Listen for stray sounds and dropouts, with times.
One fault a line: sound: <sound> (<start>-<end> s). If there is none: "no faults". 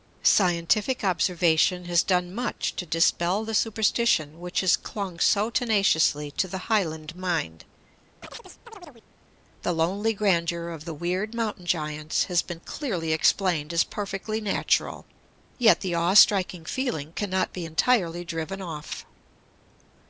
sound: chirp (8.2-9.1 s)